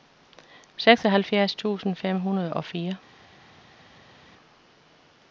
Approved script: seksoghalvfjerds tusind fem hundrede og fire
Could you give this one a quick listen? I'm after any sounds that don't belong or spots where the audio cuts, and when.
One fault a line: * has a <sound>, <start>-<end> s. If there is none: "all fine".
all fine